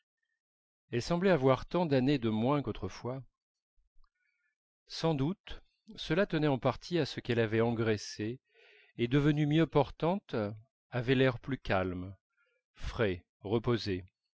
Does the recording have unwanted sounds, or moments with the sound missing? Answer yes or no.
no